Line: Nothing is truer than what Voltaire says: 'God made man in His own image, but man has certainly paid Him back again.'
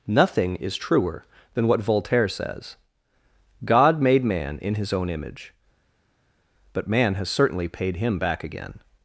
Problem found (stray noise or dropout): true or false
false